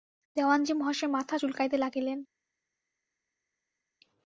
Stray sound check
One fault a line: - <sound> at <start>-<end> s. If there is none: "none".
none